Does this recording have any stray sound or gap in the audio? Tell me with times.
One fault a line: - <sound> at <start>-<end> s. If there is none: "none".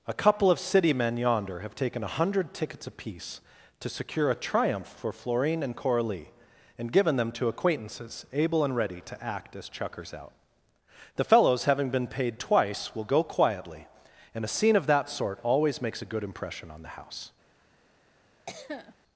- cough at 18.5-18.9 s